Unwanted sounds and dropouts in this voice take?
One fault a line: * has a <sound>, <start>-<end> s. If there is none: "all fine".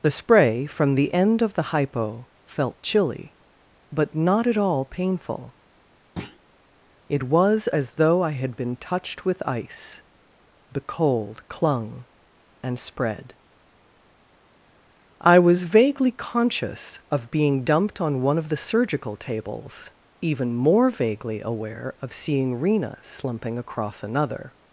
* has a thud, 6.2-6.4 s